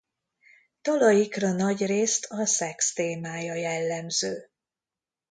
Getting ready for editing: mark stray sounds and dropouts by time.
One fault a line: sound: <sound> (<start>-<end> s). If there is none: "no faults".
no faults